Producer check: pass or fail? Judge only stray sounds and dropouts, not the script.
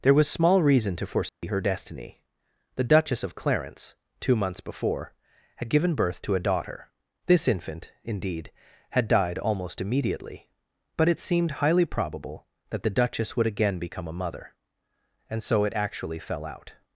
fail